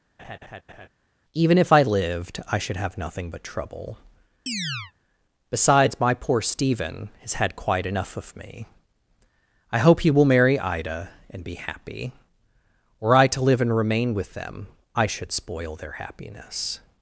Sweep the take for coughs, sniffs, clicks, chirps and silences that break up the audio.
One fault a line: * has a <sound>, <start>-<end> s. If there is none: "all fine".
* has a laugh, 0.2-0.9 s
* has a chirp, 4.5-4.9 s